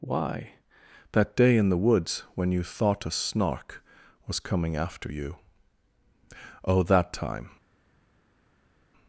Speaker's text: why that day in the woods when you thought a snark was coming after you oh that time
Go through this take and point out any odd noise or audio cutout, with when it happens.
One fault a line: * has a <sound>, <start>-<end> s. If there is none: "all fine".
all fine